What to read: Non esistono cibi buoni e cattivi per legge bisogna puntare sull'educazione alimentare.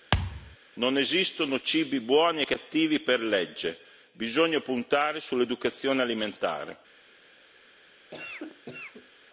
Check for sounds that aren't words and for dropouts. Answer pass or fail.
fail